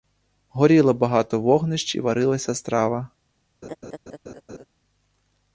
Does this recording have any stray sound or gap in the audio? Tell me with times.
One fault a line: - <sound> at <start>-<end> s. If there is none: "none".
- laugh at 3.6-4.7 s